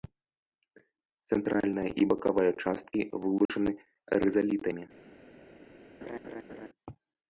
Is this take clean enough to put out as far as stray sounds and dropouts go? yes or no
no